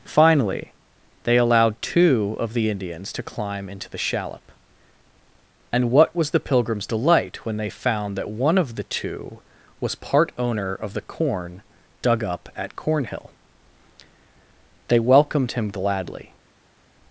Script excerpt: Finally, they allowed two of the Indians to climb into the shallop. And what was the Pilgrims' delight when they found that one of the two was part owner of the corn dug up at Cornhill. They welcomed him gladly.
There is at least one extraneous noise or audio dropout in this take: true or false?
false